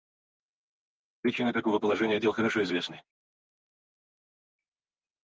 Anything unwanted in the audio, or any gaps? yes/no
no